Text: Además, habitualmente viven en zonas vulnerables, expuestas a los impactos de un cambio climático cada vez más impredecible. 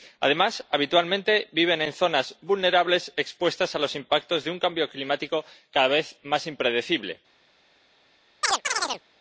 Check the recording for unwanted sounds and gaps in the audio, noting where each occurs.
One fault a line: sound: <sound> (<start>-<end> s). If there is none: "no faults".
sound: chirp (8.4-9.0 s)